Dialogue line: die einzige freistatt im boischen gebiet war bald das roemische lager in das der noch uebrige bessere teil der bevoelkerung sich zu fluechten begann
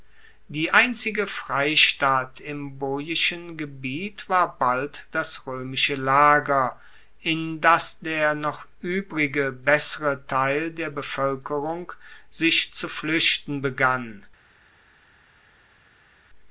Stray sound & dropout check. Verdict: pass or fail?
pass